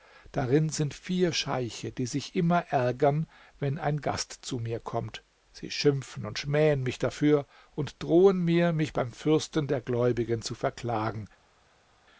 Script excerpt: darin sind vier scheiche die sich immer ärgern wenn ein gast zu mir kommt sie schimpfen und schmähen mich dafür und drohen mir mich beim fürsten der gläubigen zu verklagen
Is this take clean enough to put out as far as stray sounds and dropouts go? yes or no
yes